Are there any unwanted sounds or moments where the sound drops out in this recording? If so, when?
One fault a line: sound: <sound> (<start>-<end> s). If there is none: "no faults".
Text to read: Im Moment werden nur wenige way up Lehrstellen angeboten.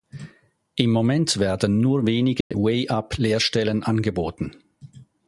sound: dropout (2.4-2.5 s)